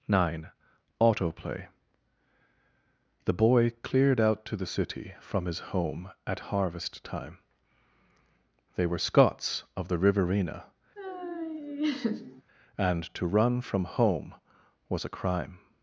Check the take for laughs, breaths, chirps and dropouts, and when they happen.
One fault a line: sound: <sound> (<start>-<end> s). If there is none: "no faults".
sound: laugh (11.0-12.4 s)